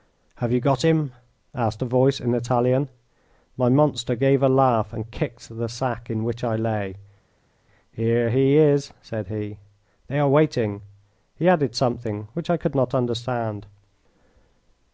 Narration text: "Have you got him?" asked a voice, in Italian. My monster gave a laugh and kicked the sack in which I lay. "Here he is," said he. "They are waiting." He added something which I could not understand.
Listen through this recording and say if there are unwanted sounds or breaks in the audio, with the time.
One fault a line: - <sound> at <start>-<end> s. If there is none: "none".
none